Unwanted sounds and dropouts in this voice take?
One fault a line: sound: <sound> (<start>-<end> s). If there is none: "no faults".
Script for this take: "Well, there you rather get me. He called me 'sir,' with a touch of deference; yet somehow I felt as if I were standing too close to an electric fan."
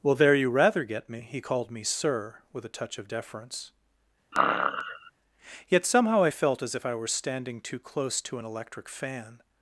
sound: sneeze (4.3-5.1 s)